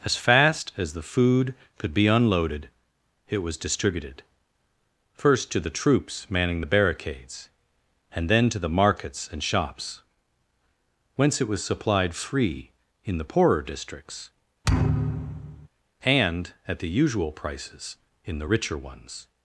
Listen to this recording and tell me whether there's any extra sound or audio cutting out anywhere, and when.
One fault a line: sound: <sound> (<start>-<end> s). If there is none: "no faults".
sound: thud (14.6-15.7 s)